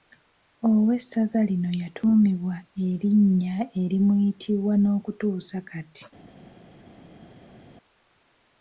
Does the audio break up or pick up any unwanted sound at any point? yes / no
no